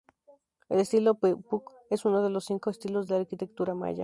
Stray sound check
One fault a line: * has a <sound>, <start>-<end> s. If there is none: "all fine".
all fine